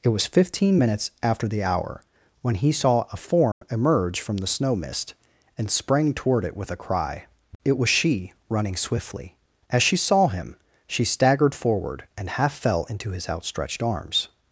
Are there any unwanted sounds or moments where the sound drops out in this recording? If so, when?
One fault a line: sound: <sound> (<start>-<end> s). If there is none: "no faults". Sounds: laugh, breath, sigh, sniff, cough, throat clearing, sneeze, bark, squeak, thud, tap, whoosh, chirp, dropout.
sound: dropout (3.5-3.6 s)